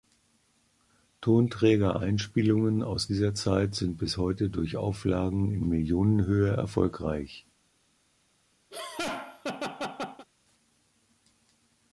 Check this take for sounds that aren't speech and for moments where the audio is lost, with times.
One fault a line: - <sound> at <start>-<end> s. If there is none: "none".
- laugh at 8.7-10.3 s